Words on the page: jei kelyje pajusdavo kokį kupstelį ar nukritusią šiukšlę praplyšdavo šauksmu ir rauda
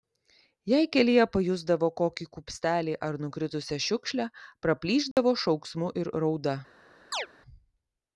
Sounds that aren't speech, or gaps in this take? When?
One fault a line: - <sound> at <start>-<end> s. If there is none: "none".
- dropout at 5.1-5.2 s
- chirp at 7.1-7.3 s